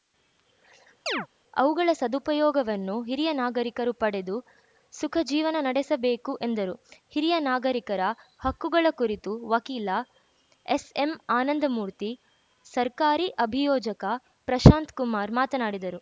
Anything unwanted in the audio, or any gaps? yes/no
yes